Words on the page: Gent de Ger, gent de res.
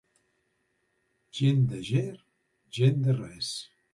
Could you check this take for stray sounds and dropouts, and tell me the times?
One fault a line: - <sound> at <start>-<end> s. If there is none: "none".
none